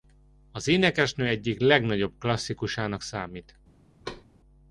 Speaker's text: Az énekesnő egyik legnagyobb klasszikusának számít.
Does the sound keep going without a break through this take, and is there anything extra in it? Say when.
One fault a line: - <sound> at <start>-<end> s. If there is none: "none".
- thud at 4.0-4.2 s